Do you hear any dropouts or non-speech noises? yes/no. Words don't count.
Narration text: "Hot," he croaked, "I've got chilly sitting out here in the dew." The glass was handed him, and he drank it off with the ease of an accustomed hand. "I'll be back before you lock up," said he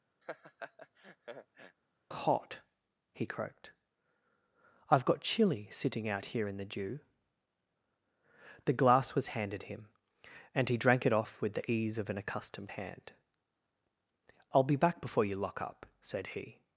yes